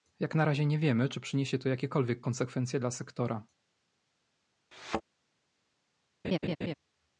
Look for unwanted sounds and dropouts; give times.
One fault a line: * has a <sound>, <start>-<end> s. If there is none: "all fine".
* has a thud, 4.7-5.0 s
* has a laugh, 6.2-6.7 s